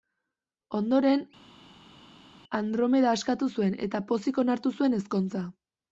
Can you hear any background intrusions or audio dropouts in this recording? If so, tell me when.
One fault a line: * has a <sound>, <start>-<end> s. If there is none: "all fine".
all fine